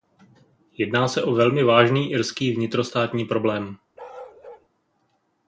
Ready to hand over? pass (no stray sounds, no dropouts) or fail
fail